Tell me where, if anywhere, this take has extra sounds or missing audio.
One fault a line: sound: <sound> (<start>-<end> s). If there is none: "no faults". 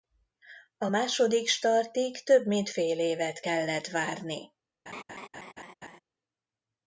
sound: laugh (4.9-6.0 s)